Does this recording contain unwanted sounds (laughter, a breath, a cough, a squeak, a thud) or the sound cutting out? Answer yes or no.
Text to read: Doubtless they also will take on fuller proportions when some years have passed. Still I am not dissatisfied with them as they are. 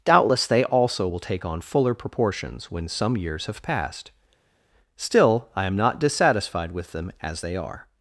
no